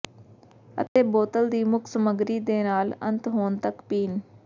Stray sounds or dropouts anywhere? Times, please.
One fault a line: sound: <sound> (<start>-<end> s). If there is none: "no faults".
sound: dropout (0.9-1.0 s)